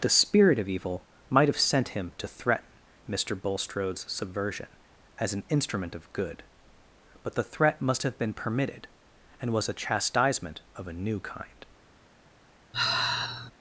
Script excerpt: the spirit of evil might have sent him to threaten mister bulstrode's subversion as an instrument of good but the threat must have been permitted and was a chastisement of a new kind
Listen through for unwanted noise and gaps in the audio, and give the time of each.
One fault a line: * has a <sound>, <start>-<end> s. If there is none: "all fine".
* has a sigh, 12.7-13.5 s